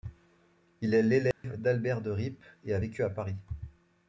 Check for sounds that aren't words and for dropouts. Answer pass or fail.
fail